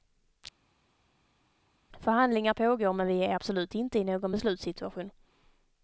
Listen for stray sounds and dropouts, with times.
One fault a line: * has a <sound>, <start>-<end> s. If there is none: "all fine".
all fine